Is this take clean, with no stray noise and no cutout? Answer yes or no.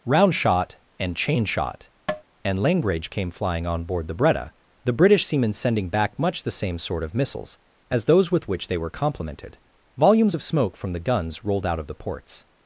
no